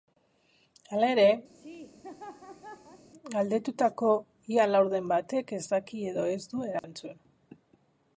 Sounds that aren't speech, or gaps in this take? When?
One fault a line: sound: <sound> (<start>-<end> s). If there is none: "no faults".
sound: laugh (1.5-3.1 s)
sound: dropout (6.8-6.8 s)